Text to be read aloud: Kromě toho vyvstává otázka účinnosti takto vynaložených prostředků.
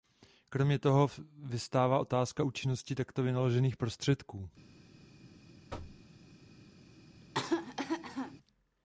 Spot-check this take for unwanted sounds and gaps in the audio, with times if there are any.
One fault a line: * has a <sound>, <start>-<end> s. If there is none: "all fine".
* has a thud, 5.7-6.0 s
* has a cough, 7.2-8.4 s